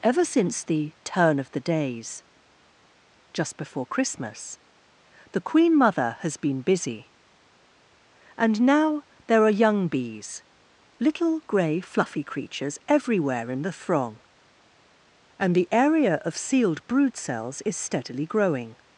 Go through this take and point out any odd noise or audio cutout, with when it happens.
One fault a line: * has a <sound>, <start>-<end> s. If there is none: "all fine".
all fine